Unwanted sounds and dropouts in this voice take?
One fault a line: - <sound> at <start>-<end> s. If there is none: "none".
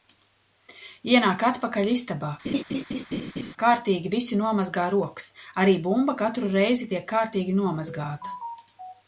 - laugh at 2.4-3.5 s